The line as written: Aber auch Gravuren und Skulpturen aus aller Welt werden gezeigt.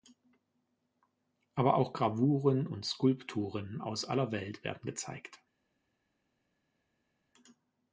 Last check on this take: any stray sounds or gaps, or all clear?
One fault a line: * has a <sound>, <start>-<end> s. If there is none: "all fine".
all fine